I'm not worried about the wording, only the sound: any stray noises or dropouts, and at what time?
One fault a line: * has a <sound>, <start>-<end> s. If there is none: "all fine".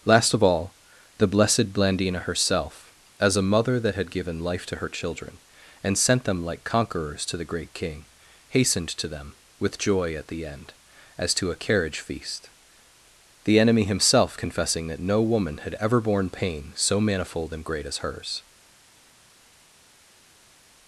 all fine